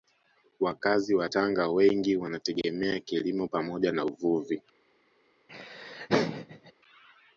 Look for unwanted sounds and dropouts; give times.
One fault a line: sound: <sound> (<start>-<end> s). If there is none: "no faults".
sound: laugh (5.5-6.7 s)